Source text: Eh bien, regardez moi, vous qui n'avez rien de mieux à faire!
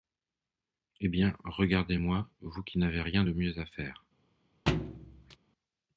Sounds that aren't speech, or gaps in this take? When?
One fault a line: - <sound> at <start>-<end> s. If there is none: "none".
- thud at 4.7-5.4 s